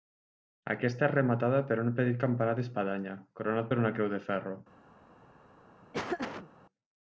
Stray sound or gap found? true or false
true